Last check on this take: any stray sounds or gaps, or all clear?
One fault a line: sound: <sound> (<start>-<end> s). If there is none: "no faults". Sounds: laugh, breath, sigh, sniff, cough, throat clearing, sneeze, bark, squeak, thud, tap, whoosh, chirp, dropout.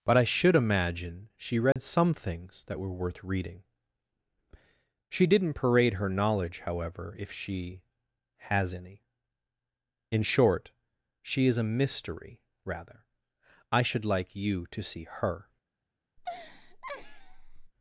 sound: dropout (1.7-1.8 s)
sound: laugh (16.2-17.7 s)